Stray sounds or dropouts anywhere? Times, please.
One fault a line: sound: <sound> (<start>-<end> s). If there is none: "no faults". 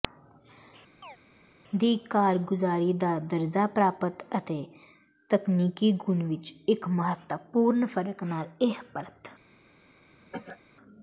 sound: chirp (1.0-1.2 s)
sound: cough (10.3-10.6 s)